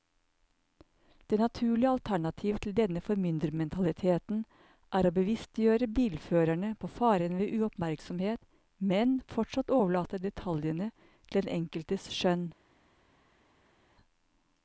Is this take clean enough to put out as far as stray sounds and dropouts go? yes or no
yes